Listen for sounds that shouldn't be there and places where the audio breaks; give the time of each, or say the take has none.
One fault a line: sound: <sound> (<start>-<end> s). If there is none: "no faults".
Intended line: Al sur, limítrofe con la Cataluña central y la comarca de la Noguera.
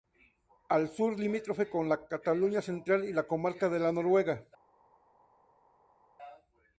no faults